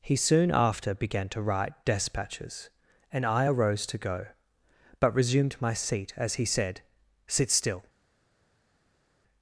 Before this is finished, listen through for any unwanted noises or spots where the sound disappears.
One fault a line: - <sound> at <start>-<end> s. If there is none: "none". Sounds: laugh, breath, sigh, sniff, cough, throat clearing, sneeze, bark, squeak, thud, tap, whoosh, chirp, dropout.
none